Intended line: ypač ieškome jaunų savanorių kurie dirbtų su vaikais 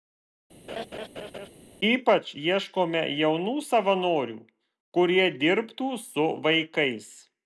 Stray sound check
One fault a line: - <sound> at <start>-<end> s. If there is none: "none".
- laugh at 0.7-1.5 s